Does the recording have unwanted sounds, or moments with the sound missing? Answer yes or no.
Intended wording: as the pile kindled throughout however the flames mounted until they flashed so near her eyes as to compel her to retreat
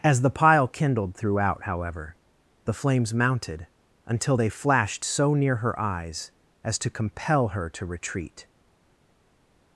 no